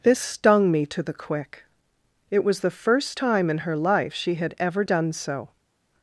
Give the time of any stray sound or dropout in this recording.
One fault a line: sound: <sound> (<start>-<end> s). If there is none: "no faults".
no faults